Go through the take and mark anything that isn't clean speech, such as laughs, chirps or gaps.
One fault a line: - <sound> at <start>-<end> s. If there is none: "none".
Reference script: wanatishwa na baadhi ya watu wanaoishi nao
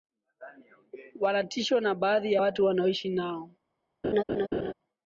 - laugh at 4.0-4.7 s